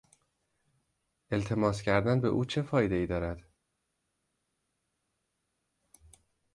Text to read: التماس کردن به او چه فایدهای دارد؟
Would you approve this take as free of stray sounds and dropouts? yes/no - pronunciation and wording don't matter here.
yes